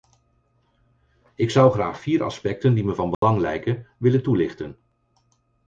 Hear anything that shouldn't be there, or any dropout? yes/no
yes